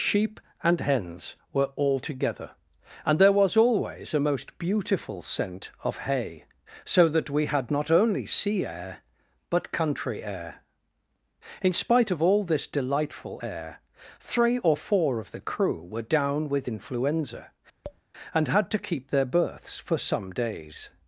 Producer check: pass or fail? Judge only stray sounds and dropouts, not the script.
fail